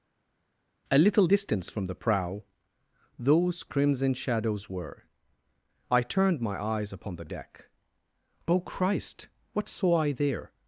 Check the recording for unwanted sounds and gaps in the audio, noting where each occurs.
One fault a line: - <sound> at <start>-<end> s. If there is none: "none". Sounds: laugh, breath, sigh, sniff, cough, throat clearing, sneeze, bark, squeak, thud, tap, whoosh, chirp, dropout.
none